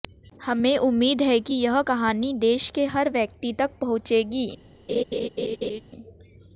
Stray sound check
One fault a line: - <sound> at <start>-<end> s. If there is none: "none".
- laugh at 4.9-5.8 s